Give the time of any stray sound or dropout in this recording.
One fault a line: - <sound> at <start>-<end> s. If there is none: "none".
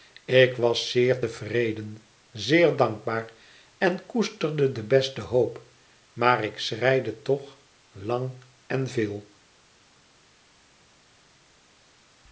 none